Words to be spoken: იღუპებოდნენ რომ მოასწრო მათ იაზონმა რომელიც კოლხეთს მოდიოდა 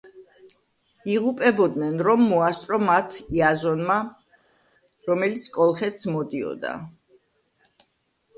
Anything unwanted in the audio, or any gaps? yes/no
no